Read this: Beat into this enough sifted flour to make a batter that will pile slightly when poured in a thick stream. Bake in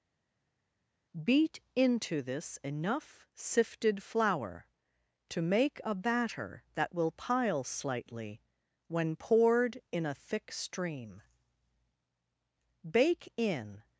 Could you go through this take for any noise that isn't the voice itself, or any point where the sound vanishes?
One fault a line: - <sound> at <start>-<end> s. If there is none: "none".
none